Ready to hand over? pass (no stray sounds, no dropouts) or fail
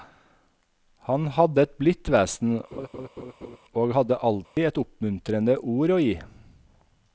fail